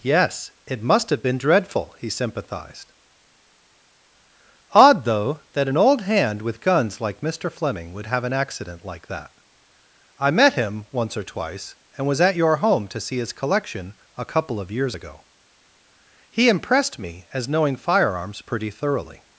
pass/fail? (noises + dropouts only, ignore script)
pass